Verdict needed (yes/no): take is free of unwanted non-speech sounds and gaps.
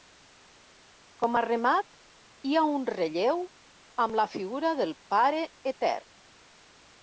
yes